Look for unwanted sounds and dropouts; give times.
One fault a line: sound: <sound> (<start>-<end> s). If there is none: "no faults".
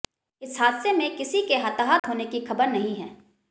sound: dropout (2.0-2.0 s)